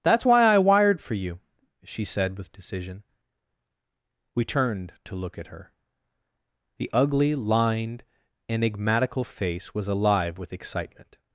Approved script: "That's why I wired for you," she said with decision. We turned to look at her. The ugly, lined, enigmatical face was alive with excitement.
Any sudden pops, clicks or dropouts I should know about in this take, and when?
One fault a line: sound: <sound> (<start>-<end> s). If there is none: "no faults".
no faults